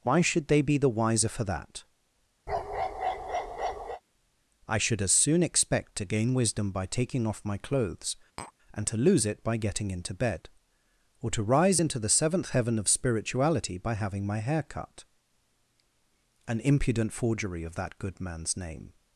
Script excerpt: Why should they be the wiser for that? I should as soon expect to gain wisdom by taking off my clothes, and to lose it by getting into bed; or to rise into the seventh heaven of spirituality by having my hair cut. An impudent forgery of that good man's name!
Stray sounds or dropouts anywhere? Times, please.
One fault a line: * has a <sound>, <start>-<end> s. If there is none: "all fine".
* has a bark, 2.5-4.0 s
* has a tap, 8.4-8.5 s